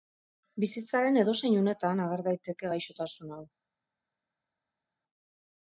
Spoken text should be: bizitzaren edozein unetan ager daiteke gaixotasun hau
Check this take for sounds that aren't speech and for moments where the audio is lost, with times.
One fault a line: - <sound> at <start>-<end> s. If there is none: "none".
none